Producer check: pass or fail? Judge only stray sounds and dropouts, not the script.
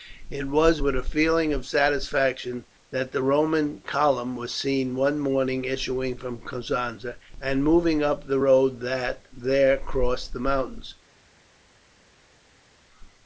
pass